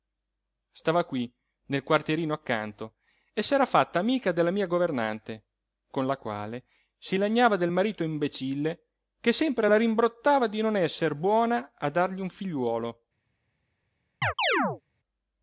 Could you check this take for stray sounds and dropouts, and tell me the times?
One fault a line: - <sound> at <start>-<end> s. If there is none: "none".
- chirp at 14.2-14.8 s